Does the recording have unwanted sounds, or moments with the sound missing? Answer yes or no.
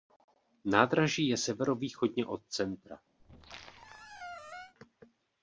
yes